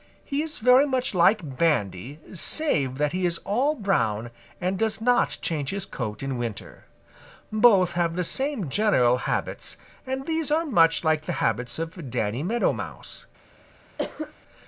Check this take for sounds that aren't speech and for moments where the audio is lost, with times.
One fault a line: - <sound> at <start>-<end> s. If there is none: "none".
- cough at 14.0-14.3 s